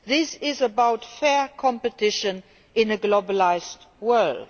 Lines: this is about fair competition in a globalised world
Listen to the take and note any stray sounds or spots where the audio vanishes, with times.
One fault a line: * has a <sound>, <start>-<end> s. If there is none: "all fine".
all fine